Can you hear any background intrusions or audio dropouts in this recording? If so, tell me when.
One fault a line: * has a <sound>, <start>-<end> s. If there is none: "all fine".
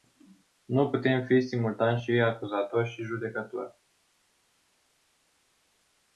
all fine